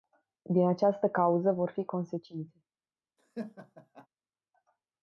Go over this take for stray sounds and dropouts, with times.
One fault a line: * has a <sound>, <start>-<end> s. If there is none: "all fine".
* has a laugh, 3.2-4.1 s